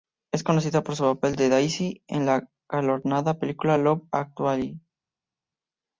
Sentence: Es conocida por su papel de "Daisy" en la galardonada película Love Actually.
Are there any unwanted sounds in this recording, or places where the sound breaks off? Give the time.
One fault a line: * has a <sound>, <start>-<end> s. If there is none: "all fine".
all fine